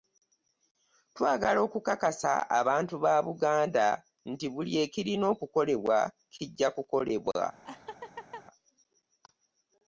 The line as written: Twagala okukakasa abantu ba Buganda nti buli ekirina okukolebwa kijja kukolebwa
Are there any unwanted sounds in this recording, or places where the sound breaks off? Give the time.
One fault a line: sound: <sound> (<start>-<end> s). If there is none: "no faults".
sound: laugh (7.6-8.4 s)